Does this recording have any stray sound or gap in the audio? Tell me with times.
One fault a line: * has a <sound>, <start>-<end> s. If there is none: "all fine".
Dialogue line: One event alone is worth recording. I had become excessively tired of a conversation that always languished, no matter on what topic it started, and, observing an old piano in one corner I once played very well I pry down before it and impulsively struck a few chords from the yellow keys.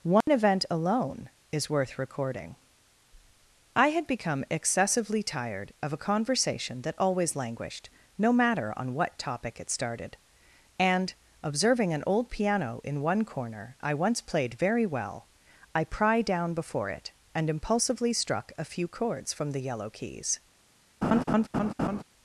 * has a dropout, 0.2-0.3 s
* has a laugh, 21.0-22.0 s